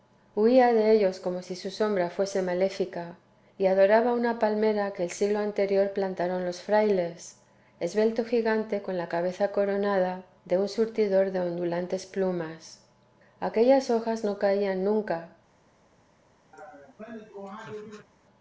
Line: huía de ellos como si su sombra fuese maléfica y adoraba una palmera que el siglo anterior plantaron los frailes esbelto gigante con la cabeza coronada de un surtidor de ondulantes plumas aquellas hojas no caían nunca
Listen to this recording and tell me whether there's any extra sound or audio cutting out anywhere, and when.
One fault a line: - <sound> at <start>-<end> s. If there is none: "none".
- laugh at 16.5-18.1 s